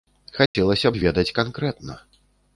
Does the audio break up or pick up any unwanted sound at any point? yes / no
yes